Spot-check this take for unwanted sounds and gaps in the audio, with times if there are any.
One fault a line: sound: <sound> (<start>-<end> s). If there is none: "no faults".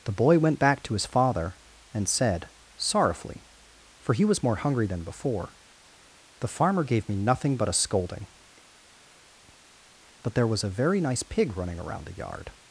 no faults